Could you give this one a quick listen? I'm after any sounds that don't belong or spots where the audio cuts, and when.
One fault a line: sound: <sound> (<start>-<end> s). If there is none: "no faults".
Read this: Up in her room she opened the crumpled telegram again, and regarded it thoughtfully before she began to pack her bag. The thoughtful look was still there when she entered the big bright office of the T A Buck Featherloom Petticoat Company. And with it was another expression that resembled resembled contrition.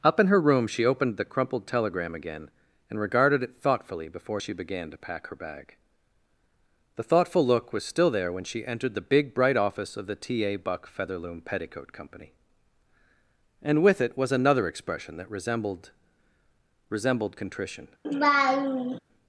sound: laugh (18.0-19.0 s)